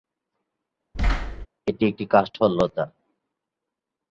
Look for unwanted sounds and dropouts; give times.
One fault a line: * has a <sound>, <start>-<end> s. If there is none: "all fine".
* has a thud, 0.9-1.5 s